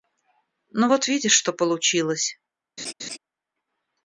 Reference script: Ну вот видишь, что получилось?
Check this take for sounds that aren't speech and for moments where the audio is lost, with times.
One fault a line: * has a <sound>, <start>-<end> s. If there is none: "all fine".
* has a laugh, 2.8-3.2 s